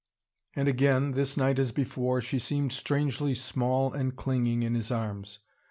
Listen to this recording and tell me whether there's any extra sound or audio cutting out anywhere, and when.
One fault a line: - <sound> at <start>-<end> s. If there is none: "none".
none